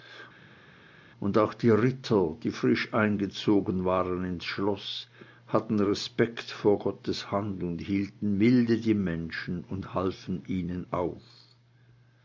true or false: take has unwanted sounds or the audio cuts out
false